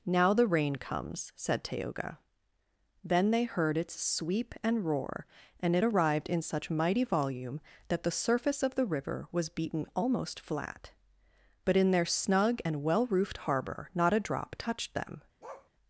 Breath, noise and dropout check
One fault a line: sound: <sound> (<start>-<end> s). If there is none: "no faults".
sound: bark (15.4-15.7 s)